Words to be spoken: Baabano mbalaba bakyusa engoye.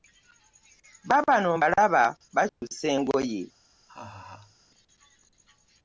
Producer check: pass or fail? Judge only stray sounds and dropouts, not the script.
fail